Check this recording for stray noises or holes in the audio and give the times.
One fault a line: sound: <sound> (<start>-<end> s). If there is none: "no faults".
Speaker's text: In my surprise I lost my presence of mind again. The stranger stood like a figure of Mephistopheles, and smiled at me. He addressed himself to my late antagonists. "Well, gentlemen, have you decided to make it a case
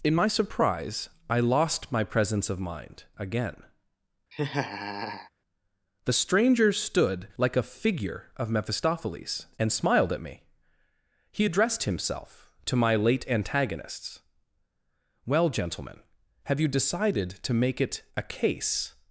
sound: laugh (4.3-5.3 s)